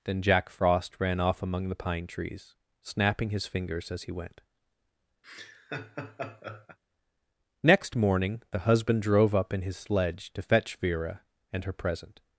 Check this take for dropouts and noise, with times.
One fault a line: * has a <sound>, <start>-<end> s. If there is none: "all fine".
* has a laugh, 5.2-6.8 s